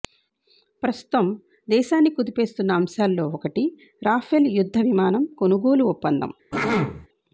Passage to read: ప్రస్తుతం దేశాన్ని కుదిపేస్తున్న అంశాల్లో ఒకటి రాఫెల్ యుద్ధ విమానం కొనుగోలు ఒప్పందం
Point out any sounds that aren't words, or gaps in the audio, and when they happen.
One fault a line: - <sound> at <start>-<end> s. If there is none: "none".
- throat clearing at 6.5-7.1 s